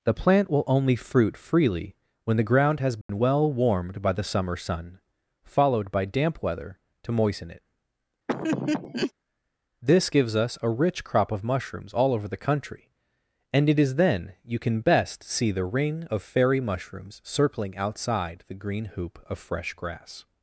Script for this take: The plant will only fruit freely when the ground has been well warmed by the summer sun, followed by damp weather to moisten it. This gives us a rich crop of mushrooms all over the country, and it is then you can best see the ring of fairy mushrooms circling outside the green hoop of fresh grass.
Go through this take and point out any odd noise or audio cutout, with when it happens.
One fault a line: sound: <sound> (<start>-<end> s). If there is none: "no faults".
sound: dropout (3.0-3.1 s)
sound: laugh (8.3-9.1 s)